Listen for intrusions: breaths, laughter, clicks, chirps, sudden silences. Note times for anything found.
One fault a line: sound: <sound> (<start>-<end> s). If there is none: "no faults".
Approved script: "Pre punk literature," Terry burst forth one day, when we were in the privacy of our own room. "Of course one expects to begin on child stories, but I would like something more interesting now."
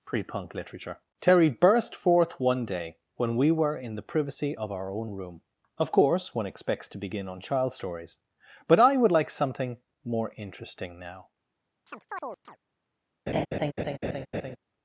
sound: chirp (11.9-12.6 s)
sound: laugh (13.3-14.6 s)